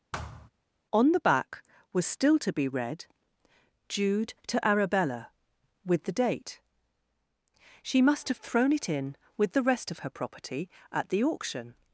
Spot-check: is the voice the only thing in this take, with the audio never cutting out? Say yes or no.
no